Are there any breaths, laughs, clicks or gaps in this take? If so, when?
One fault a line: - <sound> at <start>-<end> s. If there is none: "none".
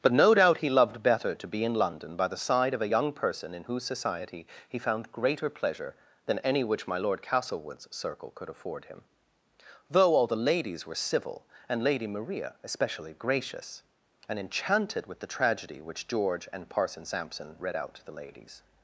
none